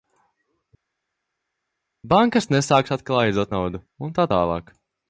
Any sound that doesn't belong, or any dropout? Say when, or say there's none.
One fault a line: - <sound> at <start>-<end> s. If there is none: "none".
none